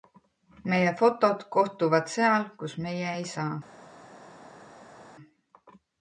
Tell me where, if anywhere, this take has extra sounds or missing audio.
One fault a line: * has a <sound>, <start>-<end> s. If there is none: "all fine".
all fine